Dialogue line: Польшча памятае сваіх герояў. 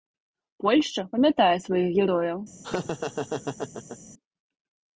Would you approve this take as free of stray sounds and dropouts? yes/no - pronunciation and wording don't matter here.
no